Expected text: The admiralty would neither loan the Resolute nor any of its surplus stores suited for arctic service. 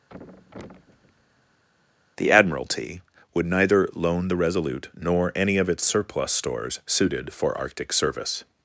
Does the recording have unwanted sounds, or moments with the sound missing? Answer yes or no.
yes